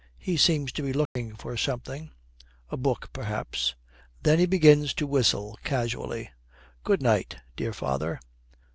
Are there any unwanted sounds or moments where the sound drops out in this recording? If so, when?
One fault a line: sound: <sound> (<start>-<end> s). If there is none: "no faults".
sound: dropout (1.1-1.2 s)